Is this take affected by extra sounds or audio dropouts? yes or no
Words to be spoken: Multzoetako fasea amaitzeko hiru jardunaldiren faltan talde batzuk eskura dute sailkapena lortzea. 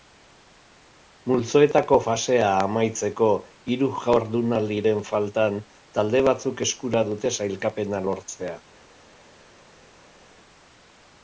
no